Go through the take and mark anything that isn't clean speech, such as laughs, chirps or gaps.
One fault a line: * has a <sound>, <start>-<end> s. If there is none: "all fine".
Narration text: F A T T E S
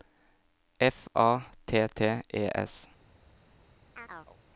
* has a chirp, 3.9-4.4 s